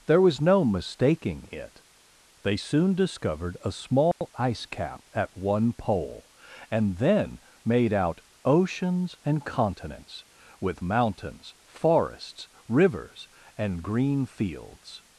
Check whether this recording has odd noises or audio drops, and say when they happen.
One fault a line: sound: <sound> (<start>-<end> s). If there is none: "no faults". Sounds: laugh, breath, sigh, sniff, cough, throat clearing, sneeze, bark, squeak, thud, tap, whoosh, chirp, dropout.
sound: dropout (4.1-4.2 s)